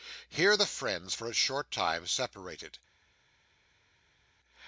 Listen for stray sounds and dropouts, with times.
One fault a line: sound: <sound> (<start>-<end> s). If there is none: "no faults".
no faults